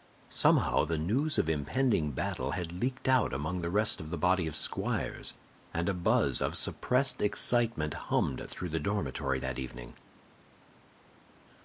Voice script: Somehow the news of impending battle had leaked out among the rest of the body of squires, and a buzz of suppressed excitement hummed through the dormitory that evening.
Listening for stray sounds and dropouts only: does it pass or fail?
pass